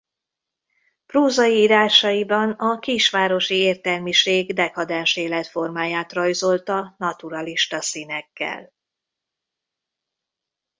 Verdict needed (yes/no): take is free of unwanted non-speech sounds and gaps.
yes